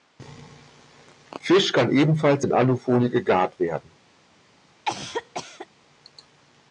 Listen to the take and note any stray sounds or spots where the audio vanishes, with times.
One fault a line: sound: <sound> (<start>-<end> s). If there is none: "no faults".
sound: cough (4.9-5.7 s)